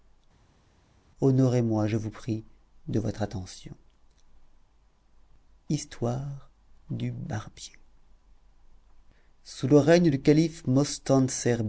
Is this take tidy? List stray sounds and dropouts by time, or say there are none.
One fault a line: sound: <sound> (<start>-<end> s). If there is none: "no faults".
no faults